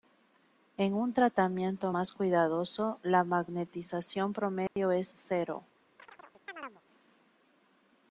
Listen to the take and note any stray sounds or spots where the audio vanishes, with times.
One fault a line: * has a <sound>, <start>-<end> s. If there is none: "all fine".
* has a dropout, 4.7-4.8 s
* has a chirp, 6.0-6.8 s